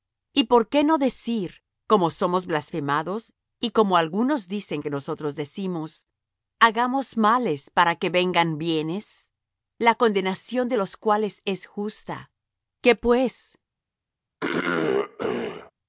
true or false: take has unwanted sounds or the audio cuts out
true